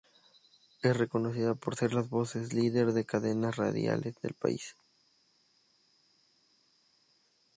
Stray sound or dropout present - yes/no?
no